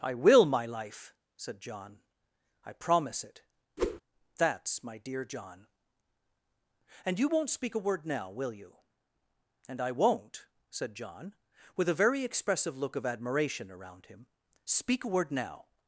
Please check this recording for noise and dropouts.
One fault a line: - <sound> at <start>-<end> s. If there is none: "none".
- whoosh at 3.8-4.0 s